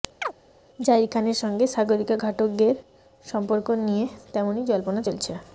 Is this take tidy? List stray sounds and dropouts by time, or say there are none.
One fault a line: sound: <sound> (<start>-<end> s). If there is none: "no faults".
sound: chirp (0.2-0.3 s)